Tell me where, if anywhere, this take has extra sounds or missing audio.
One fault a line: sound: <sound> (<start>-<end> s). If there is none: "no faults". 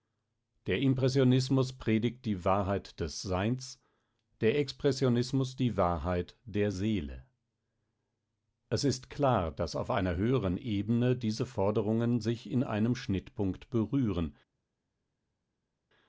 no faults